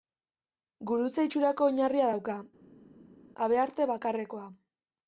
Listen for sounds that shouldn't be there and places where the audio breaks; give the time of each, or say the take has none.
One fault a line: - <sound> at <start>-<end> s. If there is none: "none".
none